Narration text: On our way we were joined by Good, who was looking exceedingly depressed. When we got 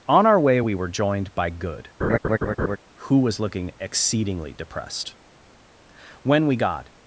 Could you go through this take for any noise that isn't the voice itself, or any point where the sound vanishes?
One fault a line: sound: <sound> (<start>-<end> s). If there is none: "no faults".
sound: laugh (2.0-2.8 s)